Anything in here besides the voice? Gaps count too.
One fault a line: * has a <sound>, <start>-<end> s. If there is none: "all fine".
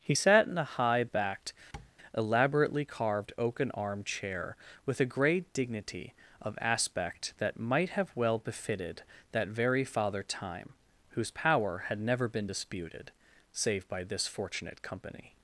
* has a tap, 1.7-1.9 s